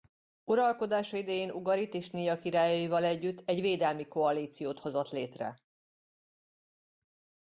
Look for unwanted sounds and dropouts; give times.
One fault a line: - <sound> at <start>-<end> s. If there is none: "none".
none